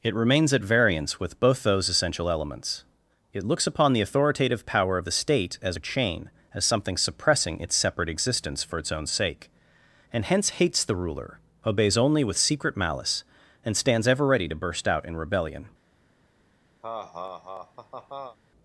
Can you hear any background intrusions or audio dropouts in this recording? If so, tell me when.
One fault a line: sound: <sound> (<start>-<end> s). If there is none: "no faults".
sound: laugh (16.8-18.4 s)